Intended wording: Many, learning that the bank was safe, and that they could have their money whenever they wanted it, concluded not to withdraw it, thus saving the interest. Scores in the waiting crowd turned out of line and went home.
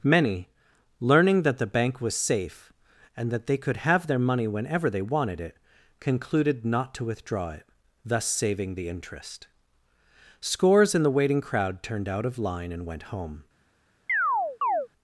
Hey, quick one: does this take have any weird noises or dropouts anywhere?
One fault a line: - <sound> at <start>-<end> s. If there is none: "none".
- chirp at 14.1-14.9 s